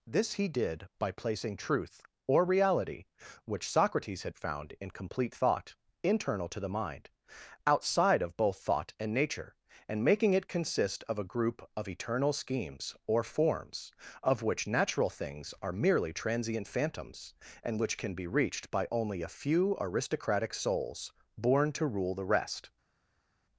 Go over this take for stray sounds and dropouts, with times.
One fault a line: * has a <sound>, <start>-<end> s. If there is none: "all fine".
all fine